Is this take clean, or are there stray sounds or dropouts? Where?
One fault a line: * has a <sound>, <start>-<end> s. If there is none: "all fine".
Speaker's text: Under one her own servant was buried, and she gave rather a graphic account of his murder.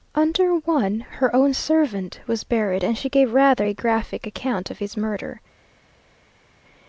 all fine